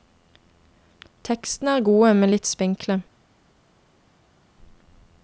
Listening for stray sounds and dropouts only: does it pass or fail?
pass